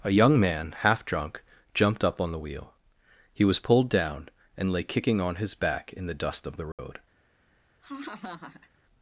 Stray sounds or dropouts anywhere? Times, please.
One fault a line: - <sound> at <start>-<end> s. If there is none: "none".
- dropout at 6.7-6.8 s
- laugh at 7.8-8.7 s